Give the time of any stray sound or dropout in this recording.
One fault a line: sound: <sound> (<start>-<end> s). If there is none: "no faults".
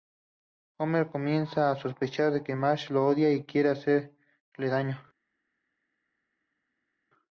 no faults